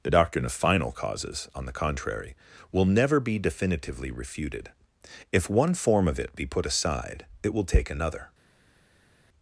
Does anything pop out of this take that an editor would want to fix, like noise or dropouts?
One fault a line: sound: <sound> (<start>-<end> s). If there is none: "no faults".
no faults